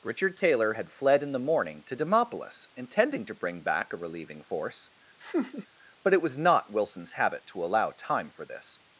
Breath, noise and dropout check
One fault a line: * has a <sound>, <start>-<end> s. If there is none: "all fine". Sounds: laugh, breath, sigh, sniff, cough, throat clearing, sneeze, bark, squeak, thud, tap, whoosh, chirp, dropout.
* has a laugh, 5.2-5.7 s